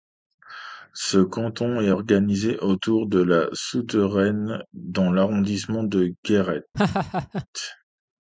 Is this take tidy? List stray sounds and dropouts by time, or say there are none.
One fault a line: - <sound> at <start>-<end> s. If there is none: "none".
- laugh at 6.7-7.5 s